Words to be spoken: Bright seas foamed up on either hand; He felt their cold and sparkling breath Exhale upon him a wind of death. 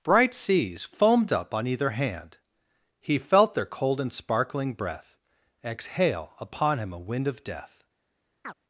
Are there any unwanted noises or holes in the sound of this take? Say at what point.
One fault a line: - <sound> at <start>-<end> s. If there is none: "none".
- chirp at 8.4-8.5 s